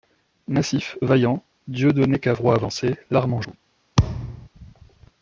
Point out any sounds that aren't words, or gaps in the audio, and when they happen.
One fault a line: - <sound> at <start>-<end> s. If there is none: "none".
- thud at 4.0-4.5 s